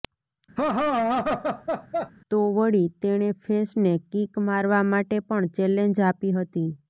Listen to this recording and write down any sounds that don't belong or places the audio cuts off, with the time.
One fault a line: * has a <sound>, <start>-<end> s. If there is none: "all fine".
* has a laugh, 0.6-2.1 s